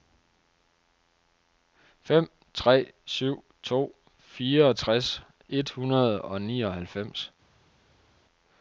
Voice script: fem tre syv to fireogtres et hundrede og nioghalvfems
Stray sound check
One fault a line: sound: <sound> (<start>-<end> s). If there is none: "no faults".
no faults